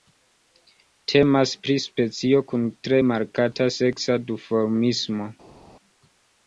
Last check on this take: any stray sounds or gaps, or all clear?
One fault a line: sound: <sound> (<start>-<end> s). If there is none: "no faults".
no faults